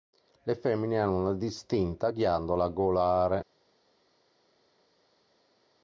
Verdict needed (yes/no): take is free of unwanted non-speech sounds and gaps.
yes